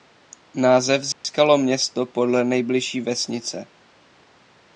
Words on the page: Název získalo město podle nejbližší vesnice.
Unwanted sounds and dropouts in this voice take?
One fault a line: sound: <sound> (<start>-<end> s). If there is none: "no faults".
sound: dropout (1.1-1.2 s)